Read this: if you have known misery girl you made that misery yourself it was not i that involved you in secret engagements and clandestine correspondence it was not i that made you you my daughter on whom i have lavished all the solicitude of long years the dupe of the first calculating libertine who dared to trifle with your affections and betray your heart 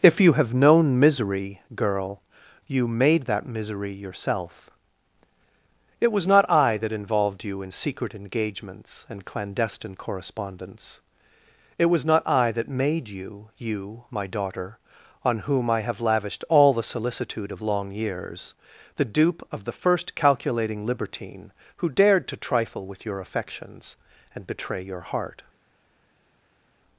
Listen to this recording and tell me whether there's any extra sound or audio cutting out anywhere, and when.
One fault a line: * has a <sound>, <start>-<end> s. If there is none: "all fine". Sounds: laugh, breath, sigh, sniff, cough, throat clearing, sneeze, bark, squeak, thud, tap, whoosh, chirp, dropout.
all fine